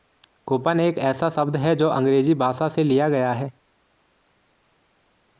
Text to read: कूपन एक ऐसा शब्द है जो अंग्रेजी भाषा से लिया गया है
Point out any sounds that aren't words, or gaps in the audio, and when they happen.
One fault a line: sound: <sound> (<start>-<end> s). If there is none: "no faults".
no faults